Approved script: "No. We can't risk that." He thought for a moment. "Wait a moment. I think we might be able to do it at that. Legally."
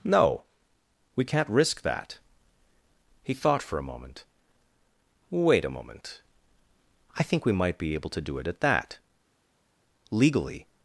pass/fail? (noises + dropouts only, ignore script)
pass